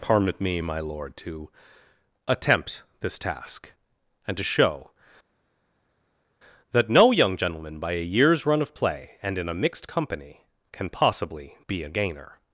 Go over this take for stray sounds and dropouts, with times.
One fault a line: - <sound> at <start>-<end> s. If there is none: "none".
none